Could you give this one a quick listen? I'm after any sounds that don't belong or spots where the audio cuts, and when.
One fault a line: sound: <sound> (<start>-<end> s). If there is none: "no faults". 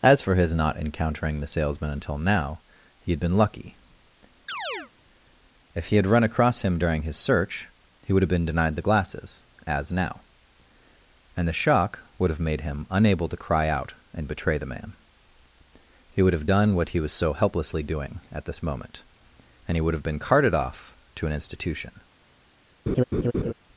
sound: chirp (4.5-4.9 s)
sound: laugh (22.9-23.5 s)